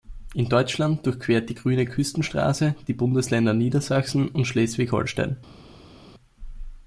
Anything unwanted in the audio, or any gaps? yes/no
no